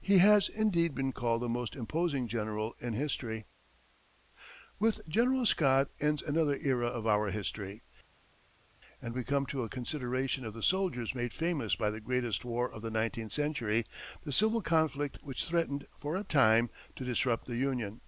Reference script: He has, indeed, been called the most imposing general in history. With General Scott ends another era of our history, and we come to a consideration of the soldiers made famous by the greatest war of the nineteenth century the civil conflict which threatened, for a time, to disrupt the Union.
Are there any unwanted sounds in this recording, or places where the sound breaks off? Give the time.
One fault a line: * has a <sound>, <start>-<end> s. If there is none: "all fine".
all fine